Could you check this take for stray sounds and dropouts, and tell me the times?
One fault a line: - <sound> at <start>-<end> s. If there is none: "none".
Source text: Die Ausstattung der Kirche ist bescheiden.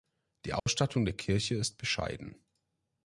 - dropout at 0.6-0.7 s